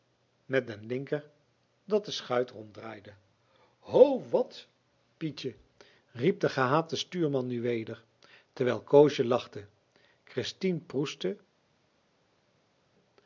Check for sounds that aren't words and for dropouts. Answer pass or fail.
pass